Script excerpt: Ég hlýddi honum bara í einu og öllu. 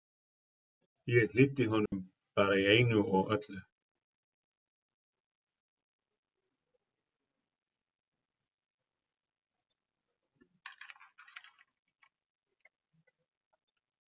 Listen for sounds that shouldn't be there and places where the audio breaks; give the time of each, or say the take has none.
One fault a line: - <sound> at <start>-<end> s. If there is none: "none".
- dropout at 1.9-1.9 s